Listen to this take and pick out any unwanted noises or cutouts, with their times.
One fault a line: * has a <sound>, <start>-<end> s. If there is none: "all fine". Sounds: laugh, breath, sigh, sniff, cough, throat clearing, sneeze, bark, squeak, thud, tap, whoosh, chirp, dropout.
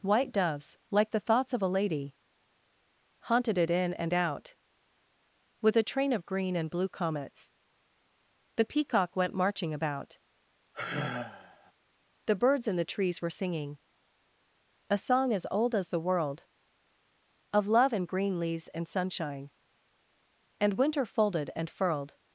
* has a sigh, 10.7-11.7 s